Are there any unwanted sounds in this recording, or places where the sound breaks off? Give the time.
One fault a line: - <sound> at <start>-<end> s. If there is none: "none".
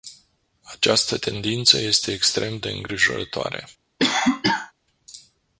- cough at 4.0-4.7 s